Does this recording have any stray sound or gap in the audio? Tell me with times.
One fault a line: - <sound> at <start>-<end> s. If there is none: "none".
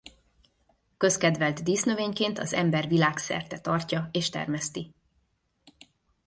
none